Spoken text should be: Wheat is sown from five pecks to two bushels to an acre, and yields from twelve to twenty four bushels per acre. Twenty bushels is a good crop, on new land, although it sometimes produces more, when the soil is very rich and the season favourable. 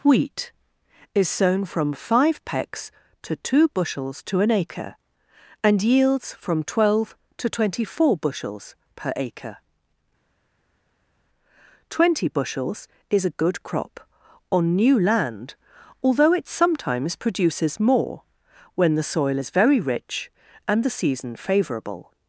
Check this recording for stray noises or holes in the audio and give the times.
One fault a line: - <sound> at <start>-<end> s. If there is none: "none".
none